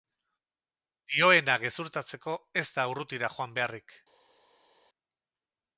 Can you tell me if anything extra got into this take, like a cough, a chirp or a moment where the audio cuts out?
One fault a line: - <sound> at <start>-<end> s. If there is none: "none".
none